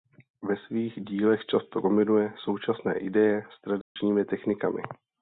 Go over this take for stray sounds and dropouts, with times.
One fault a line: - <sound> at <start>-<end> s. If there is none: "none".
- dropout at 3.8-4.0 s